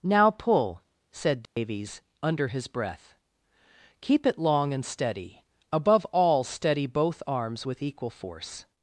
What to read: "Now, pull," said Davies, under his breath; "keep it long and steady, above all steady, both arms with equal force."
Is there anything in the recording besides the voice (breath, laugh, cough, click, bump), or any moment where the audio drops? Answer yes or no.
yes